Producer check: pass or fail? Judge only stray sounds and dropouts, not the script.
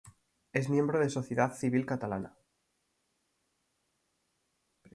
pass